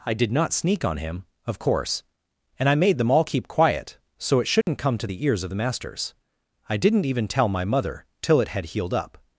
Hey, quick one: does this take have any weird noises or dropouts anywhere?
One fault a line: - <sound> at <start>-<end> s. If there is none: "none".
- dropout at 4.6-4.7 s